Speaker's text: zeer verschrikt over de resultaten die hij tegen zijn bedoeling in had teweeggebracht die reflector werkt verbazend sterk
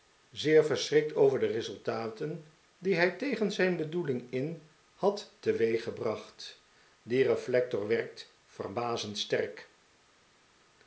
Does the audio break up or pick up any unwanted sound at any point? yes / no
no